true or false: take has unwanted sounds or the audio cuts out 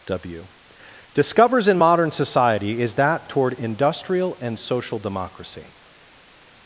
false